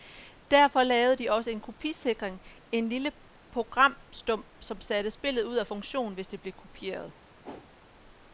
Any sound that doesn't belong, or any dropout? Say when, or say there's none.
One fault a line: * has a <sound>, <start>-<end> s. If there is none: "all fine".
* has a whoosh, 7.4-7.7 s